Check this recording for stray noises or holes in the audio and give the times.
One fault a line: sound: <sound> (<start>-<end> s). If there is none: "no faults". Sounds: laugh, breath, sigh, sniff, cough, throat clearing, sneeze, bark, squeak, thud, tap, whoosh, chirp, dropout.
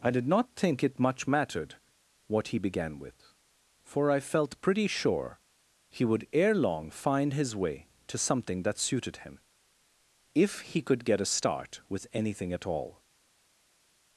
no faults